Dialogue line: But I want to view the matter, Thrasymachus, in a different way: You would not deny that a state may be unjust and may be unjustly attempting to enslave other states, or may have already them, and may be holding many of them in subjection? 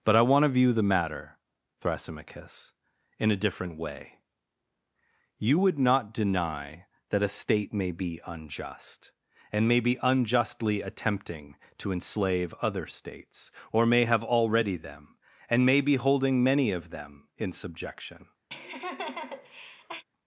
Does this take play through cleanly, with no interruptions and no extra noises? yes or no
no